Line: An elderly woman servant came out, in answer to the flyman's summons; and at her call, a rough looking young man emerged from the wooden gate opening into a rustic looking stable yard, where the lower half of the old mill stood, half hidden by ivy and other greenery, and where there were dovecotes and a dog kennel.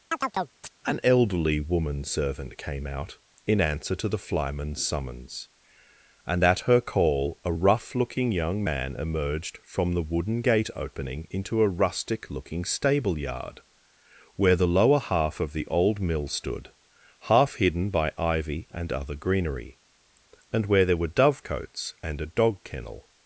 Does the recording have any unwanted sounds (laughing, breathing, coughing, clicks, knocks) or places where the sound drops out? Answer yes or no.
yes